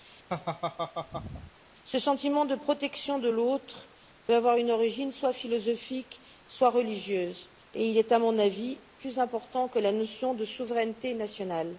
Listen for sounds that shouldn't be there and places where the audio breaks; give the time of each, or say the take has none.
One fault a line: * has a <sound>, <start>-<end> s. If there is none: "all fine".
* has a laugh, 0.3-1.5 s